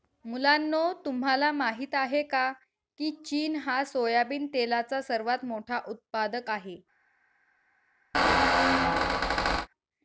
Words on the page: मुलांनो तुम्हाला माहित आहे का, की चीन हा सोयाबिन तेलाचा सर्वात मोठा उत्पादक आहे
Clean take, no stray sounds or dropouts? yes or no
no